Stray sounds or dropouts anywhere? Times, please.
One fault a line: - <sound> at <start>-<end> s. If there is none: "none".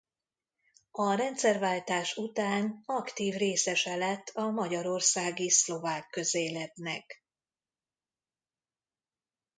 none